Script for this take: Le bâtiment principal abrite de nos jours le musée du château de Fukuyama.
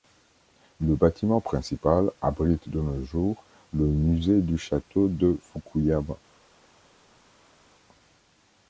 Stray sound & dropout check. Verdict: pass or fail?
pass